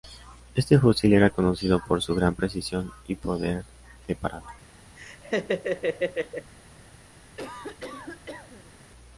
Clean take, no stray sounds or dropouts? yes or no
no